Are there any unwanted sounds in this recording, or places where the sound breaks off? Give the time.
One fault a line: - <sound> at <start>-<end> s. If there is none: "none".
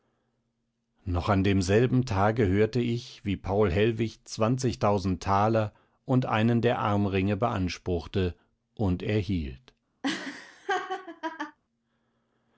- laugh at 10.0-11.6 s